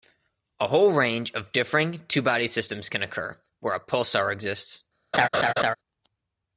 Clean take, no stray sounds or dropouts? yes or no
no